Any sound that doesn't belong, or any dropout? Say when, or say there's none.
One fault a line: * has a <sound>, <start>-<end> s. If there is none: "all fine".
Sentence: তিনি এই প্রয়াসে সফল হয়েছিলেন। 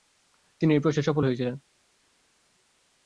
all fine